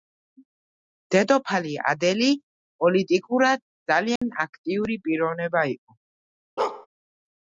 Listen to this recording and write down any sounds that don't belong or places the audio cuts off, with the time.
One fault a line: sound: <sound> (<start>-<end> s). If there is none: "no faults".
sound: dropout (4.2-4.2 s)
sound: bark (6.6-6.9 s)